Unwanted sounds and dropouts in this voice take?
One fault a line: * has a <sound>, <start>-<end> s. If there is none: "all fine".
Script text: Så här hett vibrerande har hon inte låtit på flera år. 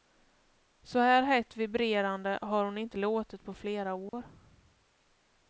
* has a dropout, 4.1-4.1 s